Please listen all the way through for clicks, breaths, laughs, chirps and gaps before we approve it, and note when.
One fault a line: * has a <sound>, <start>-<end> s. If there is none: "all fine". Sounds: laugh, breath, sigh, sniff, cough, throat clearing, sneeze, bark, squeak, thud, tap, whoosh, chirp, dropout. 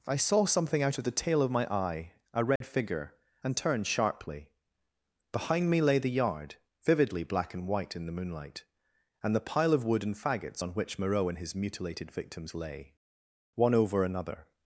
* has a dropout, 2.6-2.6 s